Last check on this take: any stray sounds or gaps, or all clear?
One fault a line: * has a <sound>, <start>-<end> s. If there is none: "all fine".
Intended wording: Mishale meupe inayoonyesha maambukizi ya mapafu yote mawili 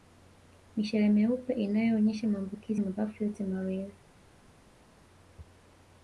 all fine